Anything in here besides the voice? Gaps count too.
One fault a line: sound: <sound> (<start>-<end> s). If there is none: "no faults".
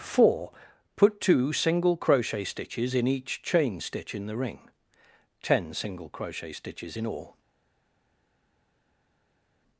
no faults